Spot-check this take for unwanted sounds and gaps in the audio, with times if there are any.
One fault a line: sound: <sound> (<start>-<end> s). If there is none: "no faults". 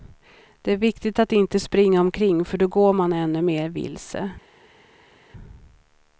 no faults